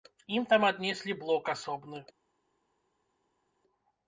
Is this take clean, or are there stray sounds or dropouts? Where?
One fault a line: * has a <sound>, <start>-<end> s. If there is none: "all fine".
all fine